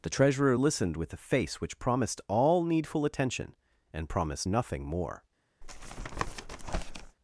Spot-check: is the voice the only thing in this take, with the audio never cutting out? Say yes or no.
no